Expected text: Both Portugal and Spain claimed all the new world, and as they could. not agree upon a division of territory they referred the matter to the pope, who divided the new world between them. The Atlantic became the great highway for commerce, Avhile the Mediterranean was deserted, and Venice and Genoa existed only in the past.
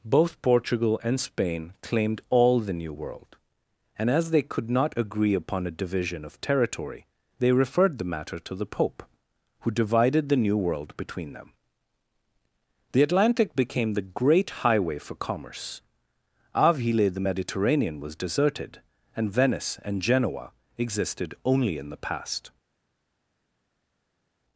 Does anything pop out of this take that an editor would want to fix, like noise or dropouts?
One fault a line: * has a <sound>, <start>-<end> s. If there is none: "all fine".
all fine